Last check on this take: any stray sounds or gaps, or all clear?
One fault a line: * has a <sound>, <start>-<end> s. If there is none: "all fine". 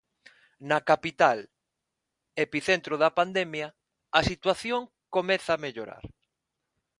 all fine